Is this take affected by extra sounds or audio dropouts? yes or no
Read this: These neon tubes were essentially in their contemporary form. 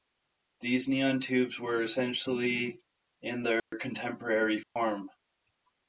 yes